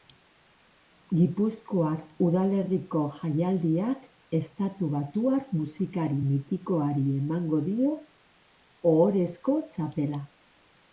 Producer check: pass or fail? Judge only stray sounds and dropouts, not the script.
pass